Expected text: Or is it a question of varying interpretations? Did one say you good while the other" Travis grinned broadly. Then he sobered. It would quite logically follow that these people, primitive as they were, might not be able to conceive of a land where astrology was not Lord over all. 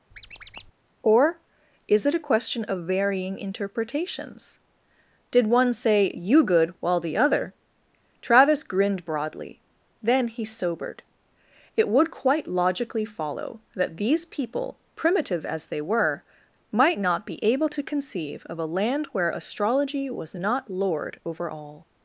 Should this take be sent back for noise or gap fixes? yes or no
yes